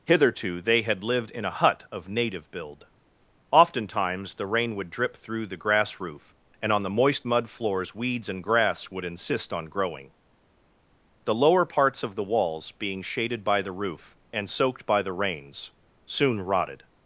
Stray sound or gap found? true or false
false